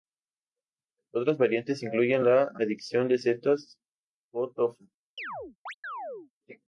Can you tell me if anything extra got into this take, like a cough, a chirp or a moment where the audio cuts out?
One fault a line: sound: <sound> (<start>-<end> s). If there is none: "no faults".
sound: chirp (5.2-6.3 s)